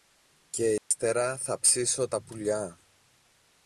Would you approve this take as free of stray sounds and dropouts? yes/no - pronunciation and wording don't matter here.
no